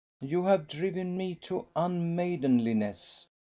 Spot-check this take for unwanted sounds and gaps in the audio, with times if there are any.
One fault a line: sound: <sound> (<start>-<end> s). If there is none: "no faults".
no faults